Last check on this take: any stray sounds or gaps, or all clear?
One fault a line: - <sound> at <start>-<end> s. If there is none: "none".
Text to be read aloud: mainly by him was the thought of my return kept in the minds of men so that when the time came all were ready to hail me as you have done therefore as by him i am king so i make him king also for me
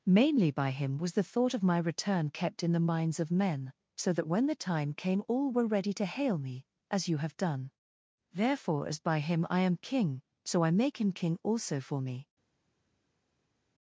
none